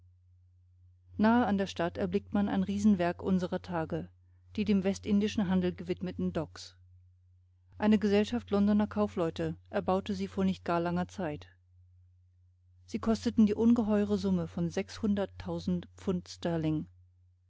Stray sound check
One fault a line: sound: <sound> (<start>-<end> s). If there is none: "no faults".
no faults